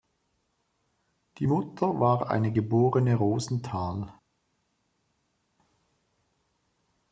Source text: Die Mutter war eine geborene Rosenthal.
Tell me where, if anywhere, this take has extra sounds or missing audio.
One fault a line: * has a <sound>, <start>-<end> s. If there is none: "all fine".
all fine